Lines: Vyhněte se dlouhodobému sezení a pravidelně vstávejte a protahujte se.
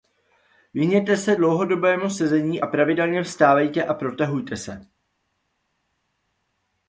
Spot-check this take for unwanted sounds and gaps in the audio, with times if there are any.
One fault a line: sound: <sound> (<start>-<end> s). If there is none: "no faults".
no faults